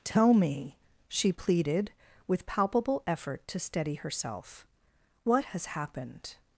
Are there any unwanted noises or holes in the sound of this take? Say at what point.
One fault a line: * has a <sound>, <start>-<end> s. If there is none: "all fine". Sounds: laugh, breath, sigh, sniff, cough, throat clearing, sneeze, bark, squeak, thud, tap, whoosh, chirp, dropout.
all fine